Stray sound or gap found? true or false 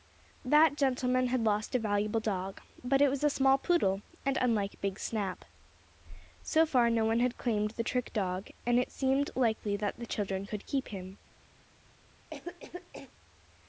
true